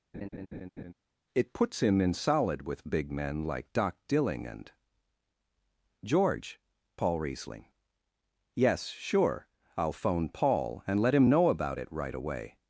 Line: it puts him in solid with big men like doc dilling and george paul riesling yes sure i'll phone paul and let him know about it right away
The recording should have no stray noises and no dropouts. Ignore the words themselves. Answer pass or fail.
fail